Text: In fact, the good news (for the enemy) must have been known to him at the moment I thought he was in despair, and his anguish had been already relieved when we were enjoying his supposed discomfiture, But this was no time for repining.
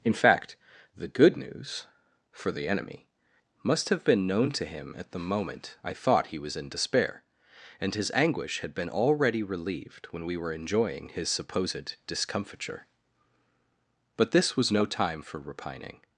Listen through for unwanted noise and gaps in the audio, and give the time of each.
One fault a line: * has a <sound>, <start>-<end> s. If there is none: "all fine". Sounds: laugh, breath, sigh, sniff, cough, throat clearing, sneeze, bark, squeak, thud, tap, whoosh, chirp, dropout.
all fine